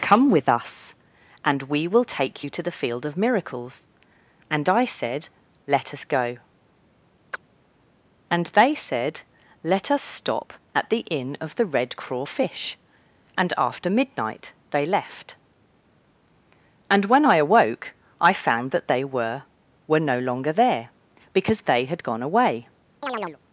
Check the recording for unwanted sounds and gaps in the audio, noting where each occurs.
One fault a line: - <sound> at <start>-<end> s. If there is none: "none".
- chirp at 7.3-7.4 s
- chirp at 23.0-23.4 s